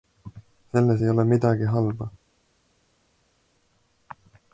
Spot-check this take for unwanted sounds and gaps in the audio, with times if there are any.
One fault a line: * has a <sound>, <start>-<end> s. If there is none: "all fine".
all fine